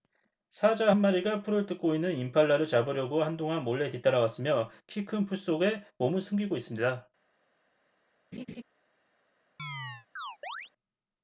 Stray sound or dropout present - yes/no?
yes